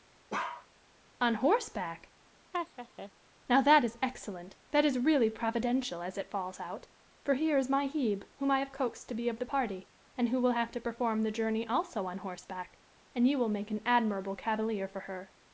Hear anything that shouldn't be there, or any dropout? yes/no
yes